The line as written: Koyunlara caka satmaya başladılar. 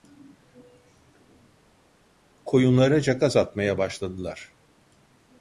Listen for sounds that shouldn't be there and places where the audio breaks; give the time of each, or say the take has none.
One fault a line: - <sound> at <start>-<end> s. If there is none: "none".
none